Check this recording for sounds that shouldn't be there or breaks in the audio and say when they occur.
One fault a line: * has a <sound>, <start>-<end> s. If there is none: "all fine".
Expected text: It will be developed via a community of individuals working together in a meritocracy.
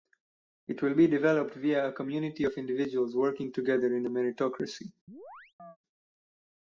* has a chirp, 5.1-5.8 s